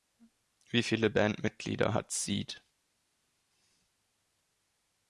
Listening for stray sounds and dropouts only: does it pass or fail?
pass